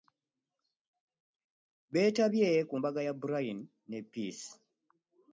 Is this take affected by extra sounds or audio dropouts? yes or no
no